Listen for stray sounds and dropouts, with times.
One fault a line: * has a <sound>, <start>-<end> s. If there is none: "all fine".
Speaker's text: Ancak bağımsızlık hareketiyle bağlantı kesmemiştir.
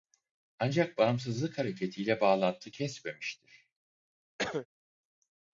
* has a cough, 4.4-4.7 s